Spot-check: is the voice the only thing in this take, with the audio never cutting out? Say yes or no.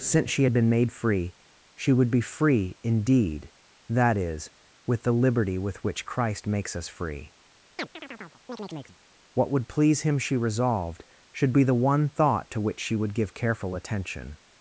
no